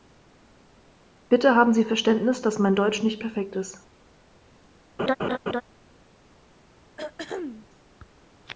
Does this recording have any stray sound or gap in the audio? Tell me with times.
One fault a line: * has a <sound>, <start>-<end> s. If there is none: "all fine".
* has a laugh, 5.0-5.6 s
* has a throat clearing, 7.0-7.7 s